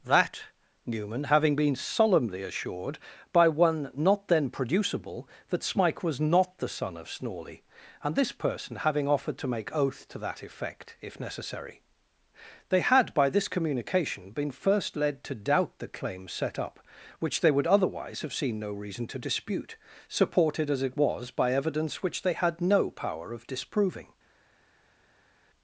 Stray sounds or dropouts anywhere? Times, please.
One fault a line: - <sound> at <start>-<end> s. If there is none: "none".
none